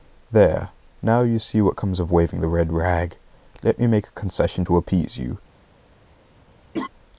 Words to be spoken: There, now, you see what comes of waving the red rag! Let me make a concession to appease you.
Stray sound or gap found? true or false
true